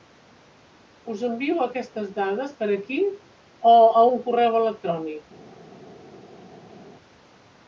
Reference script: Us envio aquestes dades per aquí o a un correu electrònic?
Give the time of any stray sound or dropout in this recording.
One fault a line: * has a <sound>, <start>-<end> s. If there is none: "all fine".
all fine